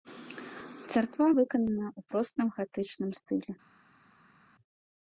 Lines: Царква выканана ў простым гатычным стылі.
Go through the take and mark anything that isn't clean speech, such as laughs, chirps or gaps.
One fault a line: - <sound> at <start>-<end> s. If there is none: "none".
none